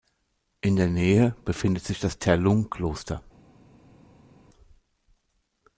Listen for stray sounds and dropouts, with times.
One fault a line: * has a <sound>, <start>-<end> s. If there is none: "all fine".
all fine